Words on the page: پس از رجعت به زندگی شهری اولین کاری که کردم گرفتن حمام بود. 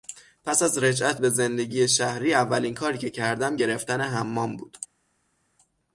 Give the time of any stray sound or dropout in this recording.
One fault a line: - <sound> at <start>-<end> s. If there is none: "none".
none